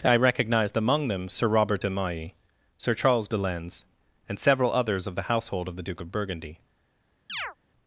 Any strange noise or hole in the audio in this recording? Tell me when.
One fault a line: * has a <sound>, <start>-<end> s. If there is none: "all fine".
* has a chirp, 7.3-7.6 s